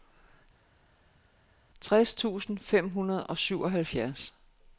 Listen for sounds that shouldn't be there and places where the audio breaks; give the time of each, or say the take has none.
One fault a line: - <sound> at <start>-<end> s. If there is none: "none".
none